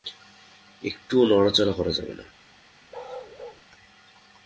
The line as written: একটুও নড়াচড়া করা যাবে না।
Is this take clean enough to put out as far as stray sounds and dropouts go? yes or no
no